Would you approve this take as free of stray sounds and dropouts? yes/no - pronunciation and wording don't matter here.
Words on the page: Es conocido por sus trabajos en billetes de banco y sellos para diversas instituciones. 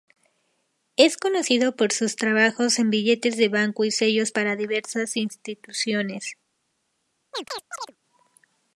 no